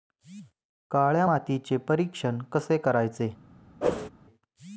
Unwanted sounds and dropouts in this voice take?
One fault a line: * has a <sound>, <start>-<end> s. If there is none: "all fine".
* has a whoosh, 3.8-4.1 s